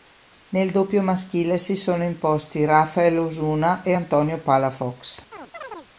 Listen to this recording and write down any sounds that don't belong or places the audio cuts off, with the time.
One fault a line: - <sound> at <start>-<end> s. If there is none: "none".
- chirp at 5.3-5.9 s